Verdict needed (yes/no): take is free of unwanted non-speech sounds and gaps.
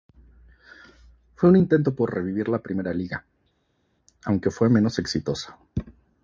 yes